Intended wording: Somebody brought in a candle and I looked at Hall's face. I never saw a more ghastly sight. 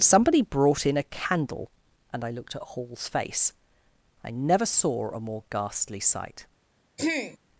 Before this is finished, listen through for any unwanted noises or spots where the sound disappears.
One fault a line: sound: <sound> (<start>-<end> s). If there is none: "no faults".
sound: throat clearing (7.0-7.4 s)